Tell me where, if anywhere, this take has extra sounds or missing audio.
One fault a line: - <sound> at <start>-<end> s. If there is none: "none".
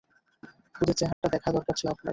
- dropout at 1.1-1.2 s